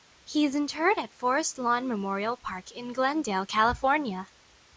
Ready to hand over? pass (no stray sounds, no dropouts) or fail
pass